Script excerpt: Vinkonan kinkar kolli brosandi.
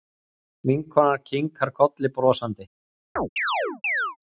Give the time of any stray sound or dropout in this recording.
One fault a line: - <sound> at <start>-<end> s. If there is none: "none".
- chirp at 3.2-4.2 s